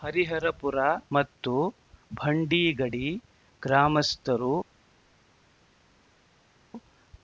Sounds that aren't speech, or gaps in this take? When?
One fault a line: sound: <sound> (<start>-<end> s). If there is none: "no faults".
no faults